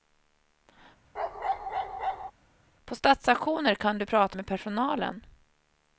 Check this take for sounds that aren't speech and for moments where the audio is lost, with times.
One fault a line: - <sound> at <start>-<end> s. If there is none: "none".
- bark at 1.1-2.3 s